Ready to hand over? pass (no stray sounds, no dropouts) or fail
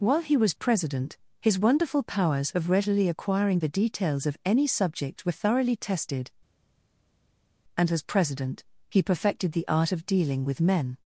pass